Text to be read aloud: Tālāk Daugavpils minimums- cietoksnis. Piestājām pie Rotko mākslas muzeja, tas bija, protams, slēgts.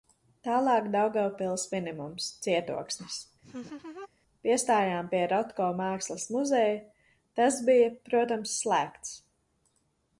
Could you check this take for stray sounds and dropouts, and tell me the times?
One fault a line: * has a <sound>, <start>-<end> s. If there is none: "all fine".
* has a laugh, 3.4-4.1 s